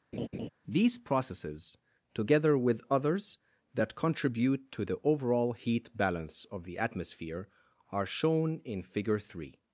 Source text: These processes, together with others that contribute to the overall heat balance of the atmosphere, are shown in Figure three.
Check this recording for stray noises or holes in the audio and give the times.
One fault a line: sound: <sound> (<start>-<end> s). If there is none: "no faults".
sound: laugh (0.1-0.5 s)